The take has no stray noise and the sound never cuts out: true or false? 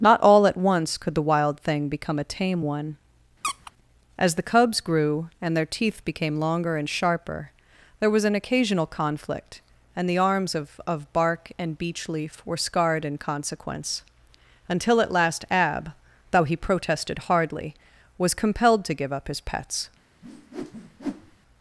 false